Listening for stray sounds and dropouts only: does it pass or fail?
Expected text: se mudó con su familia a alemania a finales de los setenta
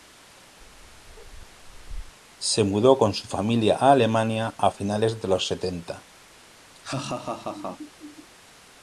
fail